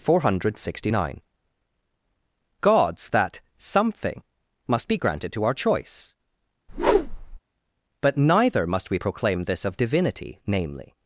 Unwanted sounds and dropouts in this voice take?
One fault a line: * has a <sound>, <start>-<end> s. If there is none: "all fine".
* has a whoosh, 6.7-7.4 s